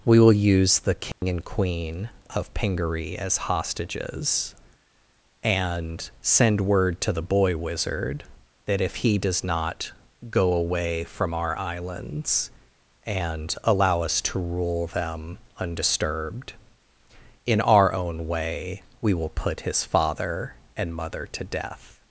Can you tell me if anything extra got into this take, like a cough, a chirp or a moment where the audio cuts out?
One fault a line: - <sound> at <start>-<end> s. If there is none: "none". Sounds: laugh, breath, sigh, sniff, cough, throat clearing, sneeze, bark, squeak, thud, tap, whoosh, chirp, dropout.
- dropout at 1.1-1.2 s